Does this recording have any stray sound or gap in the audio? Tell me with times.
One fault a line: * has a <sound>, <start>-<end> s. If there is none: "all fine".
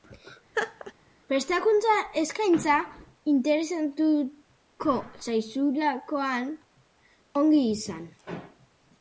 * has a laugh, 0.5-0.9 s